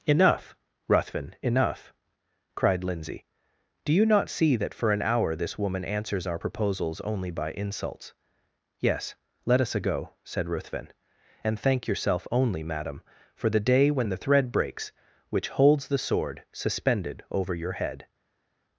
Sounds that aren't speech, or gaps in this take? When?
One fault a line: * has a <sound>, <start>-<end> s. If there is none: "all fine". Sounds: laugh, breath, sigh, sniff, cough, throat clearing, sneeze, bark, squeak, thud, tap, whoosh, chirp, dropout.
all fine